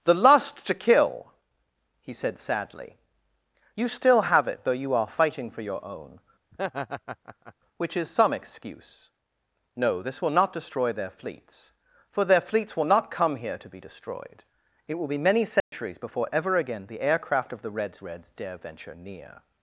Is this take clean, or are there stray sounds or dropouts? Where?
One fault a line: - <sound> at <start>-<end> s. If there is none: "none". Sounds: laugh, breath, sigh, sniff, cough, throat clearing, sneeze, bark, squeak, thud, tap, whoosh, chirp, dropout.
- laugh at 6.5-7.5 s
- dropout at 15.6-15.7 s